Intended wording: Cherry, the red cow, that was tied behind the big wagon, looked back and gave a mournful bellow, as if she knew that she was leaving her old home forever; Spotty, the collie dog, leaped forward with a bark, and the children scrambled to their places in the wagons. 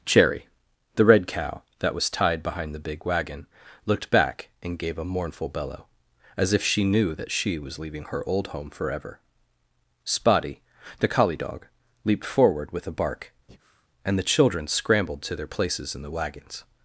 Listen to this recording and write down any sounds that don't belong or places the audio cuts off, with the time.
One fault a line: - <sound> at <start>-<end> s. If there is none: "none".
- breath at 13.5-13.9 s